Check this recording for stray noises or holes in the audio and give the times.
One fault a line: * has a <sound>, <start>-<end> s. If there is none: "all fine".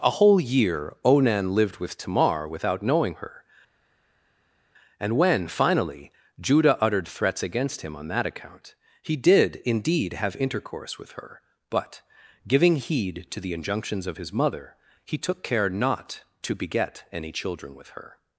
all fine